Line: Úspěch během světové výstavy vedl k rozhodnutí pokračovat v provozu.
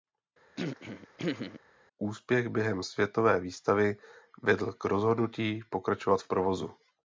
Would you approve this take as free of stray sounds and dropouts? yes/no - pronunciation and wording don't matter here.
no